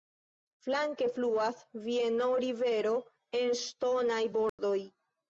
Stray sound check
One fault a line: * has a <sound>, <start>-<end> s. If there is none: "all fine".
* has a dropout, 4.5-4.6 s